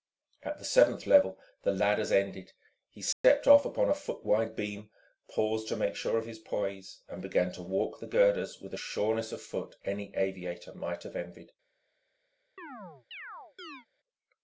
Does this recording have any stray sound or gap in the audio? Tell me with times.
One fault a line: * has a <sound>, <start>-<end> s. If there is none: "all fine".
* has a dropout, 3.1-3.2 s
* has a chirp, 12.6-13.9 s